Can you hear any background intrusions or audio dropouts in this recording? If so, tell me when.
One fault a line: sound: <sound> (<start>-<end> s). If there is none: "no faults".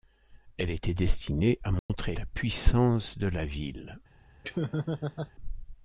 sound: dropout (1.8-1.9 s)
sound: laugh (4.4-5.3 s)